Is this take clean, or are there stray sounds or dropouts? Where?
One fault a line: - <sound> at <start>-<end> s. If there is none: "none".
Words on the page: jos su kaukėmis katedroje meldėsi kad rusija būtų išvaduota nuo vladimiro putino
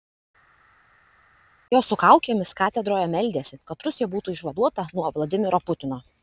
none